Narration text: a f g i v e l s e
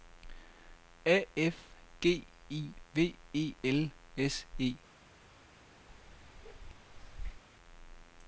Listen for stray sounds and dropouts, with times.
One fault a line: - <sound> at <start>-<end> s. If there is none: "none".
- bark at 5.9-7.4 s